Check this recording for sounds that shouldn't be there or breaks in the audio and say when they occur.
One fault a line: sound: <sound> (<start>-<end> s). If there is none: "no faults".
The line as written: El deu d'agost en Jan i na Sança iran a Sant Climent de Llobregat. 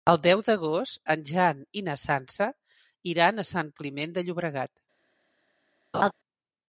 sound: laugh (5.9-6.1 s)